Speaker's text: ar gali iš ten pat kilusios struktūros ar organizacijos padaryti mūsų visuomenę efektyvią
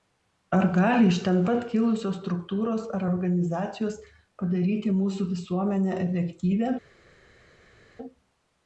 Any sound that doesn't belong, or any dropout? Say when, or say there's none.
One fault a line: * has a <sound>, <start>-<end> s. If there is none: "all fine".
all fine